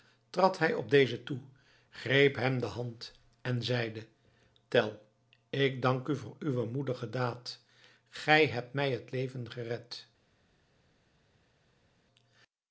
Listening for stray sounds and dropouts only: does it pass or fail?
pass